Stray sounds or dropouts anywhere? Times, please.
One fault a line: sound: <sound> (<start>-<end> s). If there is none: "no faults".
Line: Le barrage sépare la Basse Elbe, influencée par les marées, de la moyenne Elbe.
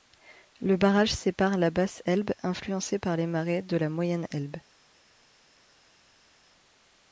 no faults